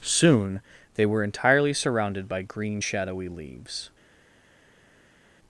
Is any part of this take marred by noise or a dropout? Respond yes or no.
no